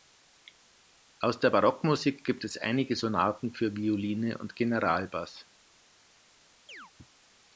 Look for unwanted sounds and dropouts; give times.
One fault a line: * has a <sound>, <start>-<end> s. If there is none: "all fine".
* has a chirp, 6.7-6.9 s